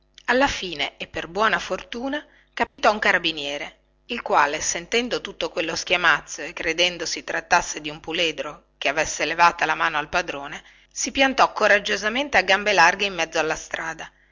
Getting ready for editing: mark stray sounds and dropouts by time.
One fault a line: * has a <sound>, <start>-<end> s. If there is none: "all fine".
* has a dropout, 2.7-2.8 s